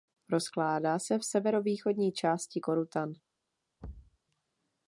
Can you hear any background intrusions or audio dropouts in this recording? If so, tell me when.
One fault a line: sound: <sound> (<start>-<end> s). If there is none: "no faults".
sound: thud (3.8-4.2 s)